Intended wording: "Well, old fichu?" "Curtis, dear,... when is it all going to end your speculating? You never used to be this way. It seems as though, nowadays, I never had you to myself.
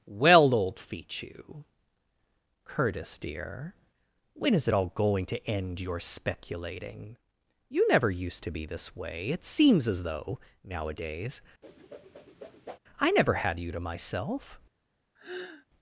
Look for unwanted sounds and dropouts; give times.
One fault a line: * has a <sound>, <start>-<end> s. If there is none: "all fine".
* has a whoosh, 11.6-12.8 s
* has a sigh, 15.2-15.7 s